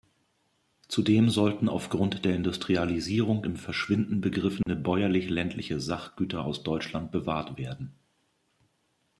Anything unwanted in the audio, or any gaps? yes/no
yes